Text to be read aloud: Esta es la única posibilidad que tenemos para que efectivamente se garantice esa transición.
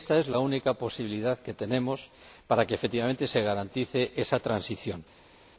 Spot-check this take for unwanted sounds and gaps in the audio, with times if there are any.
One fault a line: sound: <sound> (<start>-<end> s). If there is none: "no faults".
no faults